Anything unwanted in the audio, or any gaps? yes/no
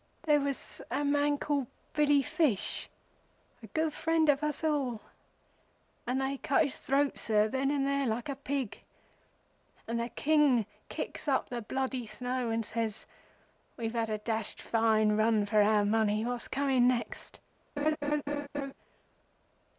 yes